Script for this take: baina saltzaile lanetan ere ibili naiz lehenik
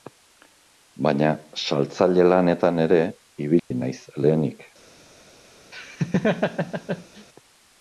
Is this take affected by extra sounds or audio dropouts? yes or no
yes